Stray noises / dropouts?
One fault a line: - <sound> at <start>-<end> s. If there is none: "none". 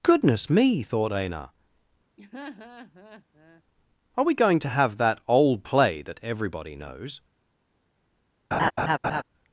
- laugh at 2.2-3.6 s
- laugh at 8.5-9.2 s